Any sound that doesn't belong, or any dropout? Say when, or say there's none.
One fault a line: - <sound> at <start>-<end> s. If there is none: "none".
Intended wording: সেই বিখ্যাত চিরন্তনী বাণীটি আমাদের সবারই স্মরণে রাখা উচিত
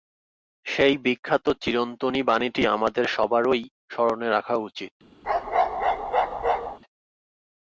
- bark at 5.2-6.8 s